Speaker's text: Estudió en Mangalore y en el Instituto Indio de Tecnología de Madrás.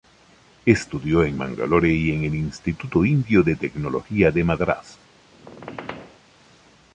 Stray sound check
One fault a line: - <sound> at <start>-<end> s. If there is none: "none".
- squeak at 5.3-6.2 s